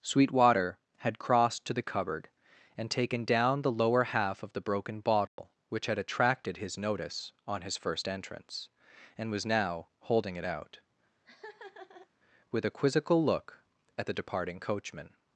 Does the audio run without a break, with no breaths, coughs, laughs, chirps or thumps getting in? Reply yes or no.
no